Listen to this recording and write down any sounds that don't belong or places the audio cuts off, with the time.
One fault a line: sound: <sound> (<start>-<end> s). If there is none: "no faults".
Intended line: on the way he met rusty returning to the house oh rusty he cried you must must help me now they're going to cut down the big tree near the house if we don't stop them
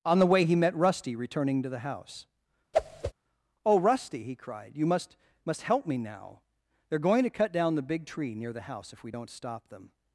sound: whoosh (2.7-3.1 s)